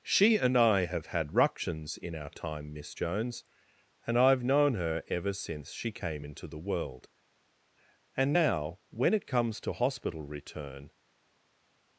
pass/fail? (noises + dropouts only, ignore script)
pass